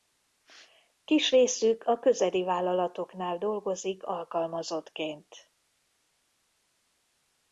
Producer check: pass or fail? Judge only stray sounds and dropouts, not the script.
pass